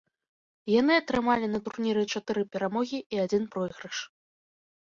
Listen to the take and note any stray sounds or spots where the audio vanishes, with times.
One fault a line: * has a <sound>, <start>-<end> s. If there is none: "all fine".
all fine